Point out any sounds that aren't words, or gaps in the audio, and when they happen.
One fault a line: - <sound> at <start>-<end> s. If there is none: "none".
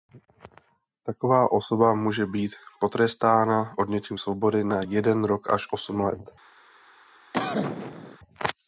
- cough at 7.3-8.2 s